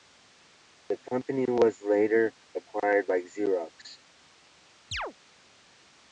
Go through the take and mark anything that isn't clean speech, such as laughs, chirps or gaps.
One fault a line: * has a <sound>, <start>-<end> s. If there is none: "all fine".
* has a chirp, 4.9-5.1 s